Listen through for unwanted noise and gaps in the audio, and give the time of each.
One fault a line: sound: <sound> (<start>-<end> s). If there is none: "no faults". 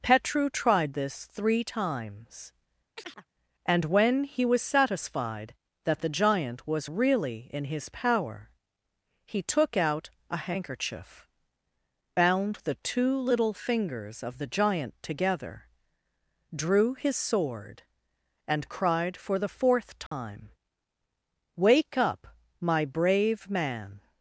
sound: chirp (3.0-3.3 s)
sound: dropout (20.1-20.1 s)